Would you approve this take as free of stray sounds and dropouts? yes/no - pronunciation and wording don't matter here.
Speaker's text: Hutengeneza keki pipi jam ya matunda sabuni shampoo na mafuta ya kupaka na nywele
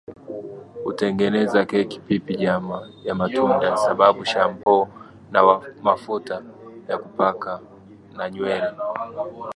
no